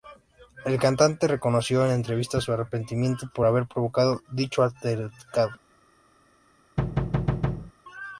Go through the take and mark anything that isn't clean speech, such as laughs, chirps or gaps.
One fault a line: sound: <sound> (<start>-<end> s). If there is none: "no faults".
sound: thud (6.8-7.7 s)